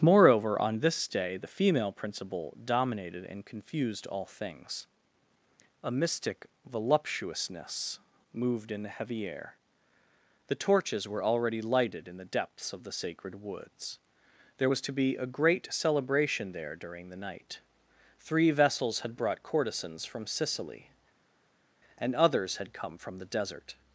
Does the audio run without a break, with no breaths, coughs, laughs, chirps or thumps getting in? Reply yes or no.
yes